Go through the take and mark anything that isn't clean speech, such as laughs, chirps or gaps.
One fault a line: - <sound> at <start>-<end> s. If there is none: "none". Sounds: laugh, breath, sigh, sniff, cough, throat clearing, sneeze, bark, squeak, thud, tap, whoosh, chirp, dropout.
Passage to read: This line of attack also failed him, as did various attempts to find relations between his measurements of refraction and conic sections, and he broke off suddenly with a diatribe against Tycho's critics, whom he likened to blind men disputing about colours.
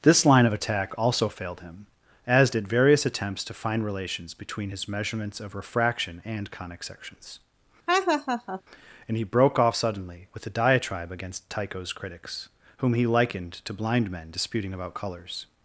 - laugh at 7.9-8.6 s